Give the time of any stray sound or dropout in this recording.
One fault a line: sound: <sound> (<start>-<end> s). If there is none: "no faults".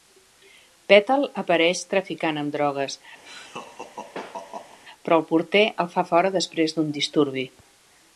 sound: laugh (3.2-4.8 s)